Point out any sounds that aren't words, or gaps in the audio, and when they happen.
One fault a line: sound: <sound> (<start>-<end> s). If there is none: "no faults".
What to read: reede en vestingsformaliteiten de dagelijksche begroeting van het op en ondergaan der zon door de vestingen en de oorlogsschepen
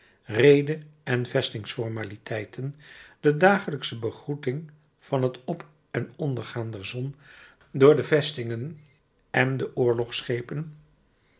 no faults